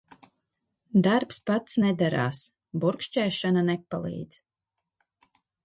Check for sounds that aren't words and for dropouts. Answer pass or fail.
pass